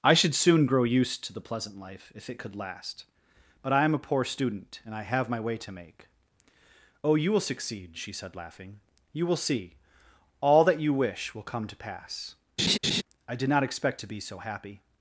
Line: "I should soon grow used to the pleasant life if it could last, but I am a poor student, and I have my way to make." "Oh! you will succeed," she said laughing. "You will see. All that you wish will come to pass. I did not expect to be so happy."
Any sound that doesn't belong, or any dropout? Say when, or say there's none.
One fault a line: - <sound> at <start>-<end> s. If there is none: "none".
- laugh at 12.6-13.0 s